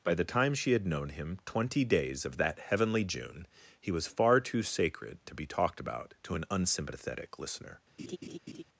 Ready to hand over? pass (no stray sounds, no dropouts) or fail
fail